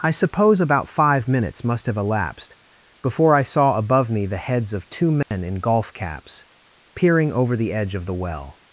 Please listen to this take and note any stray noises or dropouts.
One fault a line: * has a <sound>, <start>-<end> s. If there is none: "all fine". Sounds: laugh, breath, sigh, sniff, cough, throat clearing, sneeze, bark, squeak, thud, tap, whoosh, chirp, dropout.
* has a dropout, 5.2-5.3 s